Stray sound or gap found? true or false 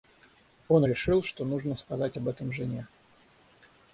false